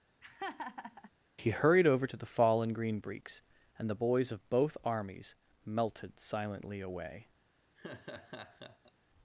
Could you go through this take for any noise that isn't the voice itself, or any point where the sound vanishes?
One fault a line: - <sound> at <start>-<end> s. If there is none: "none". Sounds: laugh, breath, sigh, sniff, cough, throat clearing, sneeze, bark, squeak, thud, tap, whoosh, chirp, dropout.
- laugh at 0.2-1.1 s
- laugh at 7.8-8.9 s